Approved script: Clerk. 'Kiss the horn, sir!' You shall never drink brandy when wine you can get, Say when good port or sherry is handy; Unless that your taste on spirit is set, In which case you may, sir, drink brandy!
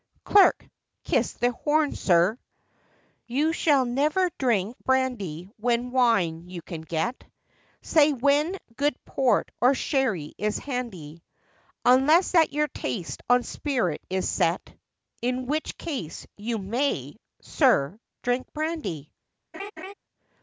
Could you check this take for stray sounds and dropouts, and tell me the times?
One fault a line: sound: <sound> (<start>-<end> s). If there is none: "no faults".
sound: laugh (19.5-19.9 s)